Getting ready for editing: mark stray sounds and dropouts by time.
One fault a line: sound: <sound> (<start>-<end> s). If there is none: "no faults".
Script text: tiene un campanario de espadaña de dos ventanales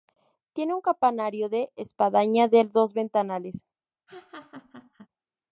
sound: laugh (4.1-5.1 s)